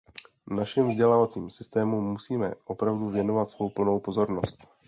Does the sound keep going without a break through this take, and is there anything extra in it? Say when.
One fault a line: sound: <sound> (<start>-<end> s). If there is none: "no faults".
no faults